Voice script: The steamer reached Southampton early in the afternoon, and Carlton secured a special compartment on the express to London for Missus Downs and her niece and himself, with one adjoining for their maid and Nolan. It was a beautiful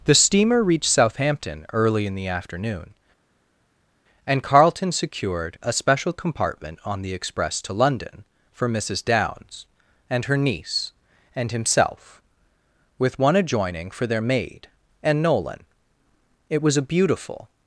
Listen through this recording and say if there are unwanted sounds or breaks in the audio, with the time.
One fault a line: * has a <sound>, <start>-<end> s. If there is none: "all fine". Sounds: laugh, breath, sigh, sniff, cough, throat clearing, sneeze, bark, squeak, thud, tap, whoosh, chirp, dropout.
all fine